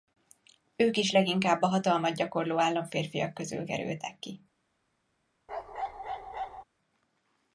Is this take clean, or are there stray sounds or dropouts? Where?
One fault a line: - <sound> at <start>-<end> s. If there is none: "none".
- bark at 5.5-6.6 s